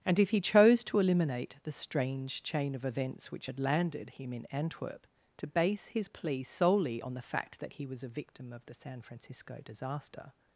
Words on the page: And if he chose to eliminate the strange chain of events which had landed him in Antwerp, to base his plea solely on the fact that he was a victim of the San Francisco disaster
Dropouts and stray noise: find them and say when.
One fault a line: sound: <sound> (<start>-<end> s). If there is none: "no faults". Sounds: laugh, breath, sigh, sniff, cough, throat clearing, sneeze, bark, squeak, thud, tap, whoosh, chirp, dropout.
no faults